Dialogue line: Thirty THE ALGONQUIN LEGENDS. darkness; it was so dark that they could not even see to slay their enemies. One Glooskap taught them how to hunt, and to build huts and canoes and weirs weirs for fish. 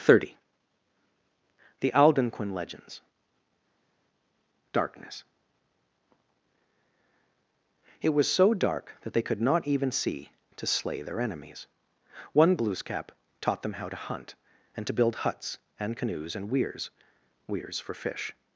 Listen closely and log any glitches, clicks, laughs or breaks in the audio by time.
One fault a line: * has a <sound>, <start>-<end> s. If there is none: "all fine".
all fine